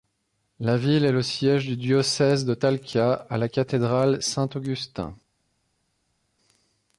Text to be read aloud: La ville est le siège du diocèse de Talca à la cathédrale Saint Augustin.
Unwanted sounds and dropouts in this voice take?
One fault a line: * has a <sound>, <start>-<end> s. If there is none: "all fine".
all fine